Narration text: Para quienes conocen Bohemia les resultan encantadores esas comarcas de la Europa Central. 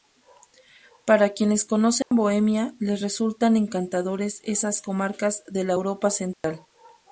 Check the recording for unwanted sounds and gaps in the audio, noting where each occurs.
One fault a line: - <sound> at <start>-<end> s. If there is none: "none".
- dropout at 2.0-2.1 s
- dropout at 6.3-6.4 s